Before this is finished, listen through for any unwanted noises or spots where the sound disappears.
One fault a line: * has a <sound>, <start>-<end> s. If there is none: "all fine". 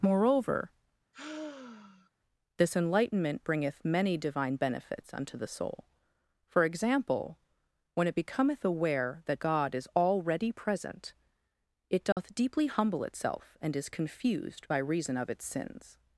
* has a sigh, 1.1-2.1 s
* has a dropout, 12.1-12.2 s